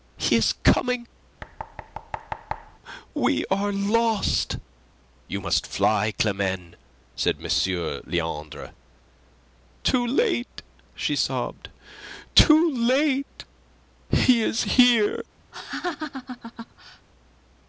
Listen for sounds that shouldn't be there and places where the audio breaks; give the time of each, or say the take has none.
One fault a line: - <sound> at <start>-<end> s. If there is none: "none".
- thud at 1.4-2.8 s
- laugh at 15.5-17.1 s